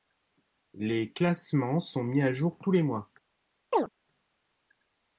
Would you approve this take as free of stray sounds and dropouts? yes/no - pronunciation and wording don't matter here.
no